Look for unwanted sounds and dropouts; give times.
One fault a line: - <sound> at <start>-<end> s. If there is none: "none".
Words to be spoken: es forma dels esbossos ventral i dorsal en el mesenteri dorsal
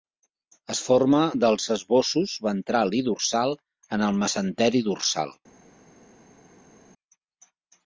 none